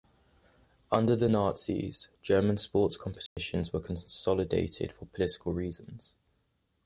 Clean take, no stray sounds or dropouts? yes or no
no